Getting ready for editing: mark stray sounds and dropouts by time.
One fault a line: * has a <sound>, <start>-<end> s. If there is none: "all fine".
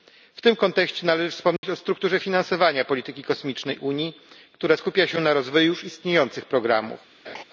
* has a dropout, 1.6-1.6 s
* has a laugh, 7.2-7.4 s